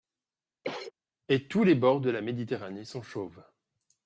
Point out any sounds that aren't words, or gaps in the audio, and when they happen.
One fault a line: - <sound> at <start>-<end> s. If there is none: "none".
- cough at 0.6-0.9 s